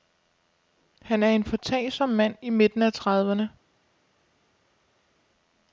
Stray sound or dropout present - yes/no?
no